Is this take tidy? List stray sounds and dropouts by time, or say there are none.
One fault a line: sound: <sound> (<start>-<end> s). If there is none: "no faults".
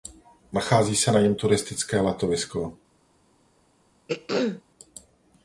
sound: throat clearing (4.1-4.6 s)